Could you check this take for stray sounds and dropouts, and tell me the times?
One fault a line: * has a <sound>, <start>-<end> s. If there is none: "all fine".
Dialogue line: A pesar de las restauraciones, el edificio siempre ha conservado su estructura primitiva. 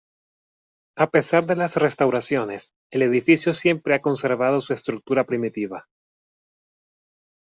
all fine